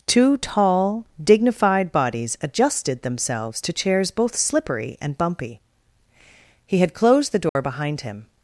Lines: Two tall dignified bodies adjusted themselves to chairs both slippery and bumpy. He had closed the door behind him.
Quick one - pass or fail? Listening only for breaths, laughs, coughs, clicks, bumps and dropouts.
fail